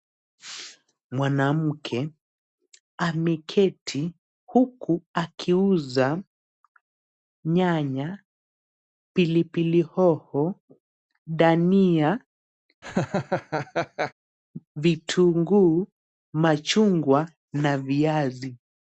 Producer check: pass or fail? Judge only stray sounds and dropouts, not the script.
fail